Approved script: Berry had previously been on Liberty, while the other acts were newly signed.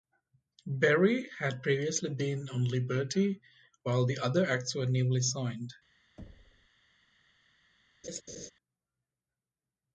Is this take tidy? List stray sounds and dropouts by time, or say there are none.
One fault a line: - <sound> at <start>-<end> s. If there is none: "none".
- thud at 6.2-6.7 s
- laugh at 8.0-8.5 s